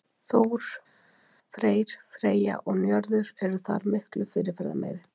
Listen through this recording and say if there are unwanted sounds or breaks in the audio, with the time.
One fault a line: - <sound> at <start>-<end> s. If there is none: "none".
none